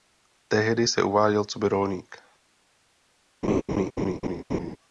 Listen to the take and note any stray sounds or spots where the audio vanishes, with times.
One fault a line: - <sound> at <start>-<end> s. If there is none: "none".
- laugh at 3.4-4.8 s